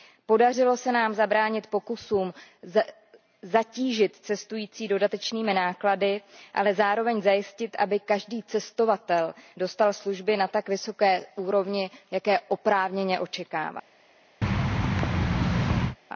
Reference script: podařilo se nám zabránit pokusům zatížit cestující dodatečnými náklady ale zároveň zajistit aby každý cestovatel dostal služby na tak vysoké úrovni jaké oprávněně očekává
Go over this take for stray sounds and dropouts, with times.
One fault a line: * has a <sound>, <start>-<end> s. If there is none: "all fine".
* has a thud, 14.4-16.0 s